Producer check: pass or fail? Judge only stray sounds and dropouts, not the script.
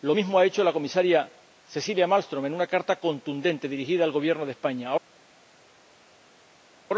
pass